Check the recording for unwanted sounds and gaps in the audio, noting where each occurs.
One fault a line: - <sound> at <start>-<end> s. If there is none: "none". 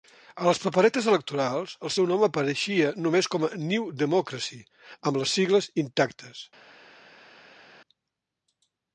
none